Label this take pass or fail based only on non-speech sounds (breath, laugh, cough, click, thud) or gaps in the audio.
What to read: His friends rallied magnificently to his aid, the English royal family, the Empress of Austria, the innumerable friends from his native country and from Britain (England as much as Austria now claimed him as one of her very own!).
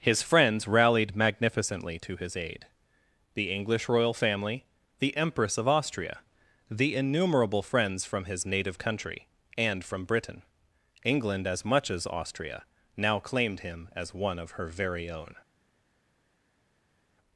pass